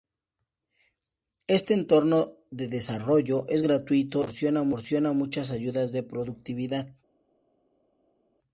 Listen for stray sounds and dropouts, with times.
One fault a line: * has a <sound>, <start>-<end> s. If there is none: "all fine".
all fine